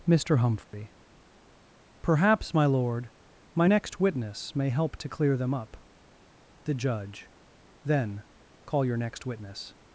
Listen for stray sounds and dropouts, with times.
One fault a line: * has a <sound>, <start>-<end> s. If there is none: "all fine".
* has a dropout, 0.6-0.7 s